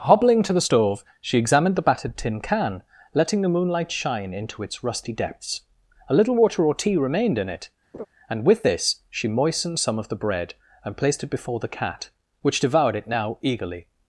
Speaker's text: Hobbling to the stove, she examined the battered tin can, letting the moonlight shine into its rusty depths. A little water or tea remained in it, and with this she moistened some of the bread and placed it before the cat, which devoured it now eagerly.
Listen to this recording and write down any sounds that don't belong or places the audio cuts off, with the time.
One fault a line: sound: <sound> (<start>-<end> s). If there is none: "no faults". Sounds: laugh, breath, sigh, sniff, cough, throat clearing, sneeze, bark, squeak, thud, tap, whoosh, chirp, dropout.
sound: laugh (7.9-8.1 s)